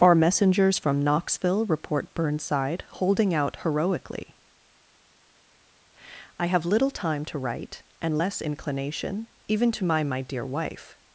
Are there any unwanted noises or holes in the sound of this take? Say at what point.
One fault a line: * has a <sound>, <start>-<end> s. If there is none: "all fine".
all fine